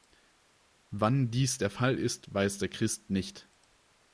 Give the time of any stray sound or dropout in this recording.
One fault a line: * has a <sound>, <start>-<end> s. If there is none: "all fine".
all fine